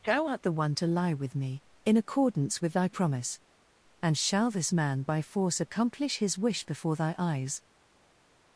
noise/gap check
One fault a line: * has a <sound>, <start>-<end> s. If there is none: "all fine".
all fine